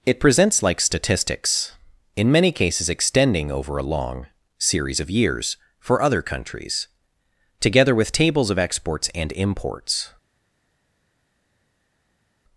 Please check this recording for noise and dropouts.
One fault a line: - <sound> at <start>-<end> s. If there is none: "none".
none